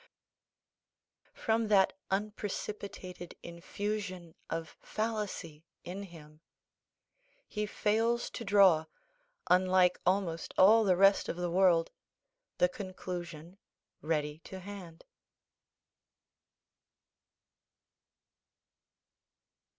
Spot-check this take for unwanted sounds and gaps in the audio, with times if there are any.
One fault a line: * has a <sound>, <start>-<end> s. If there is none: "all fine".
all fine